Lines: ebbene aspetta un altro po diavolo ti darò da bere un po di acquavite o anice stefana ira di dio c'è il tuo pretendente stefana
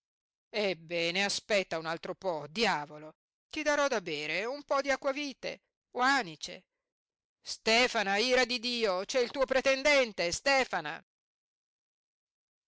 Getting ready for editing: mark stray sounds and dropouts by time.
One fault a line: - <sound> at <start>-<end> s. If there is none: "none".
none